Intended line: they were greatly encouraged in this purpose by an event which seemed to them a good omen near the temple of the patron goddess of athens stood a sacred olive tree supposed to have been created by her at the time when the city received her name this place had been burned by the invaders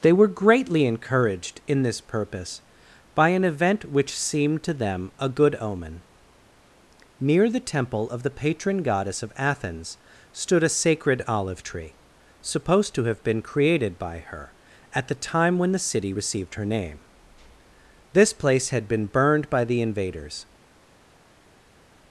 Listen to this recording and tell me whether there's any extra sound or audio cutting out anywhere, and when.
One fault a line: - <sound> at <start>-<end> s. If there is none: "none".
none